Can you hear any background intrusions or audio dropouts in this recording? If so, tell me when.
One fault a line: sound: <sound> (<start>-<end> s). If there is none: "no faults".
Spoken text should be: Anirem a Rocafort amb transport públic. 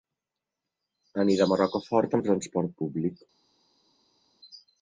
no faults